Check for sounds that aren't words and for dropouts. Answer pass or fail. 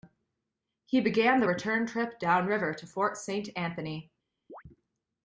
fail